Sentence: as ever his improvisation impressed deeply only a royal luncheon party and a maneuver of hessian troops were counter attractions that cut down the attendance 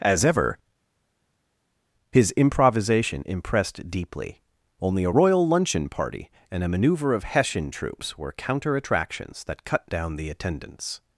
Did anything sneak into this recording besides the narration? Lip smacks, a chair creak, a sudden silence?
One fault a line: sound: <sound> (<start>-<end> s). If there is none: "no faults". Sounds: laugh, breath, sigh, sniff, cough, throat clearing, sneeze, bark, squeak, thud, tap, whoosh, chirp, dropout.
no faults